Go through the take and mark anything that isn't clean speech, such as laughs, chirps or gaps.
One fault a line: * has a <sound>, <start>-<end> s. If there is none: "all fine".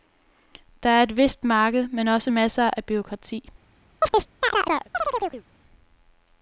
* has a chirp, 4.0-5.4 s